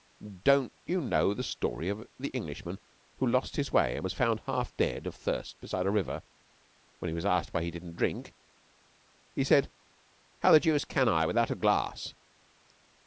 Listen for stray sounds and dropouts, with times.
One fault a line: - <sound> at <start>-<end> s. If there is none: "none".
none